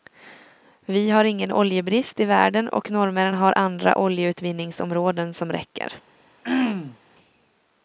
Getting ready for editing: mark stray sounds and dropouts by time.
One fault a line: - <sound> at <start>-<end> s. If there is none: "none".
- throat clearing at 6.4-7.0 s